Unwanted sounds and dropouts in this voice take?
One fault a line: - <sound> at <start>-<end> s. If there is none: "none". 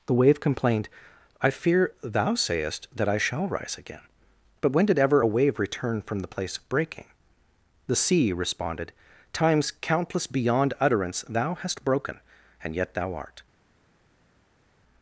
none